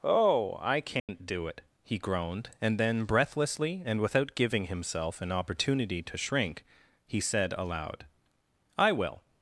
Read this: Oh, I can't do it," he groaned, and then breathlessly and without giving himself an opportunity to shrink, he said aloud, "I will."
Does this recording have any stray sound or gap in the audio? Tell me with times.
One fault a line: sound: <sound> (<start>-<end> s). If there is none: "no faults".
sound: dropout (1.0-1.1 s)